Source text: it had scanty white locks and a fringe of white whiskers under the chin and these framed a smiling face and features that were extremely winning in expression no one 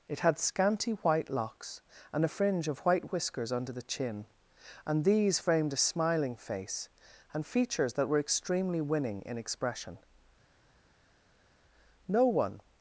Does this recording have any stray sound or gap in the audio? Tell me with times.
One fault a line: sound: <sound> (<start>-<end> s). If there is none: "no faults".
no faults